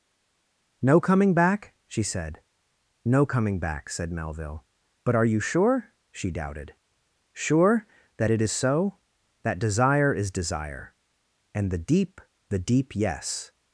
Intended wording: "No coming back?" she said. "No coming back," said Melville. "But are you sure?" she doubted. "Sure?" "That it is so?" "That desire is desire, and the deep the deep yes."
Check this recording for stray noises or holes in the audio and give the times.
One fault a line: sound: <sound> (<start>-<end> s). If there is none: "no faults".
no faults